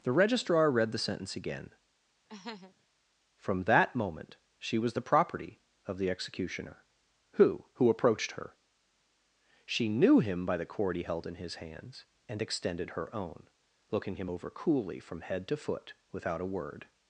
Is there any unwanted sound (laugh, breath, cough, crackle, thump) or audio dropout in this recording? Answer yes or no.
yes